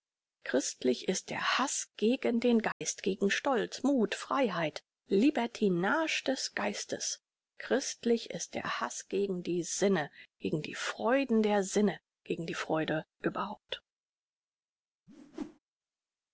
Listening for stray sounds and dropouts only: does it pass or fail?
fail